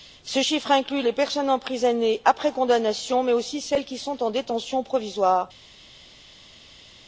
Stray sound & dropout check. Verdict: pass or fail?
pass